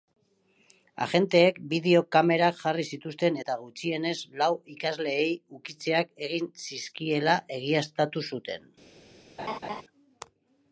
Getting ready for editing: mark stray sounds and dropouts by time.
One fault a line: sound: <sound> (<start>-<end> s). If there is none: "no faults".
sound: laugh (9.4-9.8 s)